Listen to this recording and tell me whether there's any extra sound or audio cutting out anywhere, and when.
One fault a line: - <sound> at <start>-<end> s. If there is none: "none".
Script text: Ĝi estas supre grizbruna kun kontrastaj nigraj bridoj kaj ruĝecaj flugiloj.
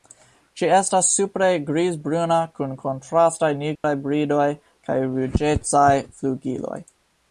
- dropout at 3.8-3.8 s